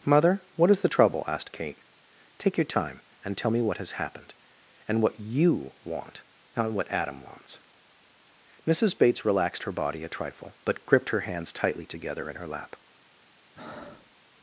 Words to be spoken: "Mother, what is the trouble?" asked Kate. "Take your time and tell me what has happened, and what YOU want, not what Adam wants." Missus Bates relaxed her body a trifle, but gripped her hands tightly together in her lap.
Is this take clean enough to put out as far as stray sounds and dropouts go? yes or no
no